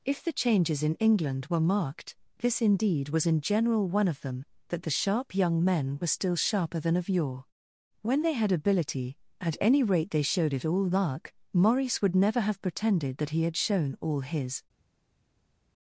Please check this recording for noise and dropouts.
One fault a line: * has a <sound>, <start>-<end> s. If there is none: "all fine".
all fine